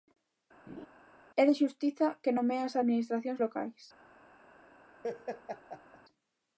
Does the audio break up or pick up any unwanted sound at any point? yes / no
yes